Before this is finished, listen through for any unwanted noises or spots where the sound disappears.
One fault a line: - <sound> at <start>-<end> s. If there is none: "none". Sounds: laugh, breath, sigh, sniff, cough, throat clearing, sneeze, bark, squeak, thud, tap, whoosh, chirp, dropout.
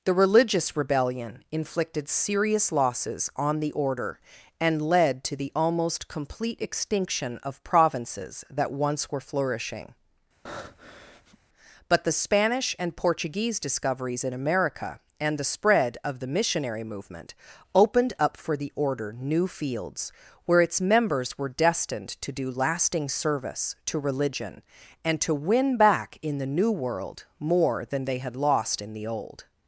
- breath at 10.5-11.4 s